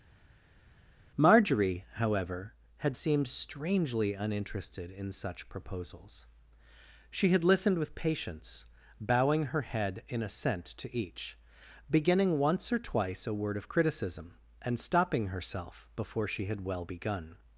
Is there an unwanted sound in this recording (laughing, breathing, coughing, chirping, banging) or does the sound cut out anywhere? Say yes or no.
no